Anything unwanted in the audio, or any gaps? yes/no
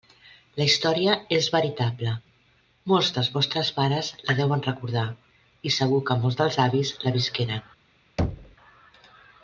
yes